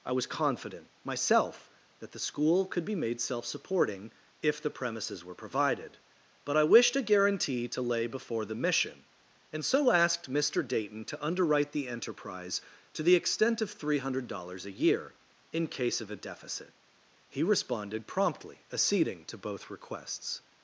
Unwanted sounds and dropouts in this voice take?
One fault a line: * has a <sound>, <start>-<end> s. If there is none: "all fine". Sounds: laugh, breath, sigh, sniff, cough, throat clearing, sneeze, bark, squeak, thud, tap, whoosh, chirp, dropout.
all fine